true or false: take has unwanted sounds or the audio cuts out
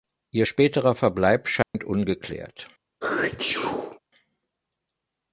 true